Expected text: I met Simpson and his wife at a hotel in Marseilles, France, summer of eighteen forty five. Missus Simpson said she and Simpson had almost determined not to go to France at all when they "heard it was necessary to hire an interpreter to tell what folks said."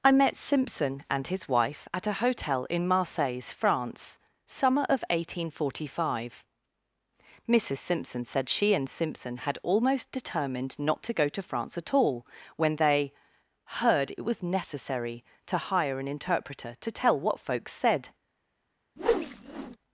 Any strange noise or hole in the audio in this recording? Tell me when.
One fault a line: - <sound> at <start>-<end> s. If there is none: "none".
- whoosh at 19.0-19.8 s